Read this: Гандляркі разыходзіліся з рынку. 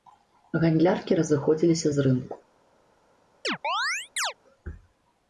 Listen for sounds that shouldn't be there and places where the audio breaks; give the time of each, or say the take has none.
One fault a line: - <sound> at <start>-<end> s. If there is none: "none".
- chirp at 3.4-4.3 s